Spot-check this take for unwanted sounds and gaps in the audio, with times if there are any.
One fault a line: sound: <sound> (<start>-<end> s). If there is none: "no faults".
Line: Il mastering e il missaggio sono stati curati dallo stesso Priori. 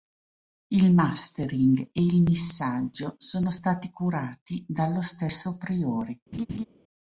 sound: laugh (6.3-6.7 s)